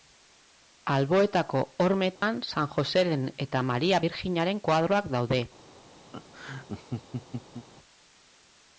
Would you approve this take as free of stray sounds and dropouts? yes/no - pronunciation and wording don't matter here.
no